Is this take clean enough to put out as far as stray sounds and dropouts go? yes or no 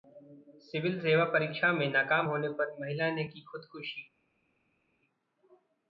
yes